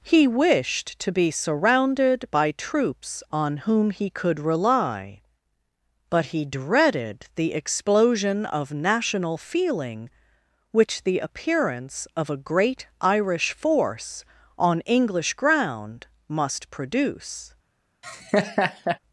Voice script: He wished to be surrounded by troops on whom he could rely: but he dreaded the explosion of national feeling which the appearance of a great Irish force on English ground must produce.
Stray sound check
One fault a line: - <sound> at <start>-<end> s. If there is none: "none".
- laugh at 18.0-19.0 s